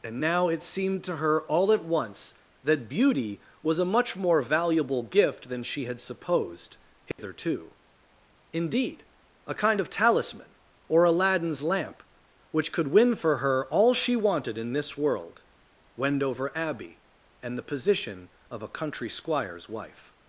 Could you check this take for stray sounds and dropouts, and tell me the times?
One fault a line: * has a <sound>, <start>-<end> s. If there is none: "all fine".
* has a dropout, 7.1-7.2 s